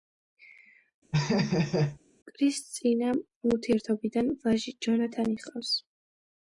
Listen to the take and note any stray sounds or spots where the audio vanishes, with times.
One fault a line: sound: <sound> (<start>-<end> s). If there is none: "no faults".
sound: laugh (1.1-2.0 s)